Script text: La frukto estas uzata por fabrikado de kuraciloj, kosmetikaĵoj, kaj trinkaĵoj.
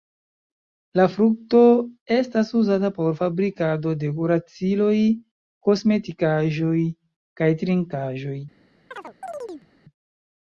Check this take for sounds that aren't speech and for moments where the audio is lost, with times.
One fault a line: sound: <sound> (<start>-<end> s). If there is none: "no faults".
sound: chirp (8.9-9.7 s)